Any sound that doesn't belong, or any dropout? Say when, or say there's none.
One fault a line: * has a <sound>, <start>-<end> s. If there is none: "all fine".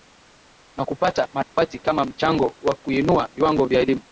* has a dropout, 1.4-1.6 s